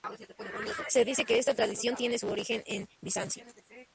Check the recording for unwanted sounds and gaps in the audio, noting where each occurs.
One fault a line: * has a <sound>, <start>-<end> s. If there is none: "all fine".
all fine